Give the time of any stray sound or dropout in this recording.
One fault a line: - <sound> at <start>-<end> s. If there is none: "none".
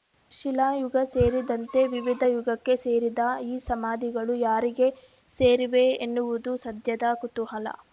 none